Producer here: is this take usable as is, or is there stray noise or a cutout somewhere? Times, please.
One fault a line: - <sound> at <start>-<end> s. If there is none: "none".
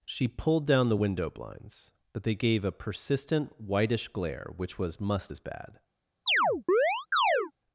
- chirp at 6.3-7.5 s